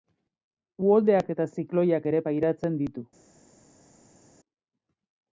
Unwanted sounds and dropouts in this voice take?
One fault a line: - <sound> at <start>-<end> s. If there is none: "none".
none